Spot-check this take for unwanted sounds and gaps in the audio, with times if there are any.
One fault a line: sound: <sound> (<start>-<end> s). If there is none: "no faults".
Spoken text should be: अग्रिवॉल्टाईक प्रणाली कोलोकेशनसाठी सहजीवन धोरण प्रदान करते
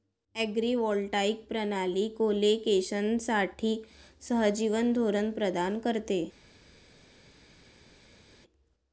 no faults